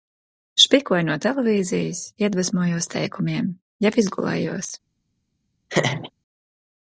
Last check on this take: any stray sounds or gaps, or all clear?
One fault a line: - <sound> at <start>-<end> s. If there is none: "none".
- laugh at 5.7-6.1 s